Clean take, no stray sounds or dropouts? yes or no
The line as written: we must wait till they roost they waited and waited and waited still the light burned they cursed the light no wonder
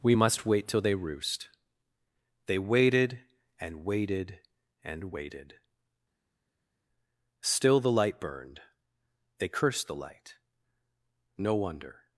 yes